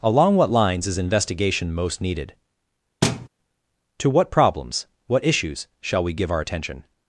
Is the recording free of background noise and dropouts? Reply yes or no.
no